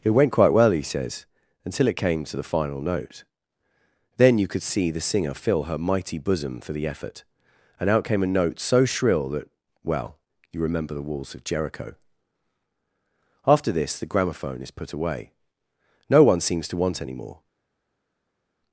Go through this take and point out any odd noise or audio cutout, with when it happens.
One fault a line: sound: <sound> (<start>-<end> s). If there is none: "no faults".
no faults